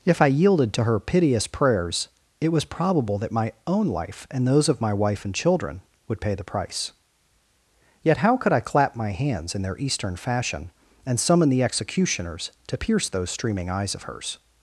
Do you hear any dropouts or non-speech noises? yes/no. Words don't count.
no